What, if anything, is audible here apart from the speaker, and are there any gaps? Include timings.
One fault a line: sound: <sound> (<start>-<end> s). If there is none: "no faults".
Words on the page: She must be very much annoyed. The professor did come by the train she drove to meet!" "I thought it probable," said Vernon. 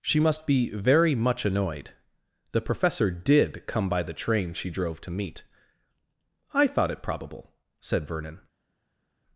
no faults